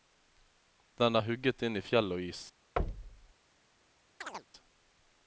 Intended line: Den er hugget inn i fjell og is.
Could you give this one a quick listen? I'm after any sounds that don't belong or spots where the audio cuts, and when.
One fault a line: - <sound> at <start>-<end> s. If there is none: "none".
- thud at 2.8-3.3 s
- chirp at 4.2-4.5 s